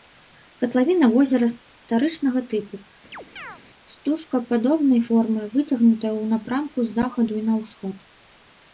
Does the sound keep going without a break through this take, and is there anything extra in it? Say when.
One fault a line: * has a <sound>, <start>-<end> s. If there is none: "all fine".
* has a chirp, 3.1-3.6 s